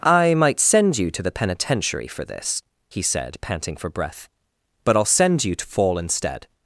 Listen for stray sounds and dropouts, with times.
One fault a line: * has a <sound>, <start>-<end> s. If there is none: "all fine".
all fine